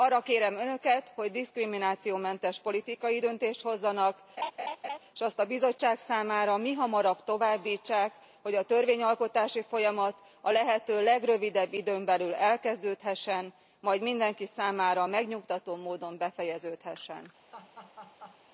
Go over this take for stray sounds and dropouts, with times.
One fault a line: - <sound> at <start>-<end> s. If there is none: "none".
- laugh at 4.4-5.0 s
- laugh at 17.5-18.4 s